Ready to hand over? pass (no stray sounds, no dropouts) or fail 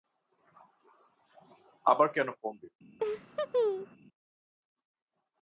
fail